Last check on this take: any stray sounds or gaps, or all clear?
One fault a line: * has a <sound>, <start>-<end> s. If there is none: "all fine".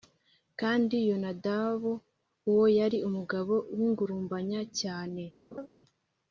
* has a laugh, 5.5-5.7 s